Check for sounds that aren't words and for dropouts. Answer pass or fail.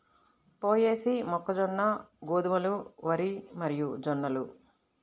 pass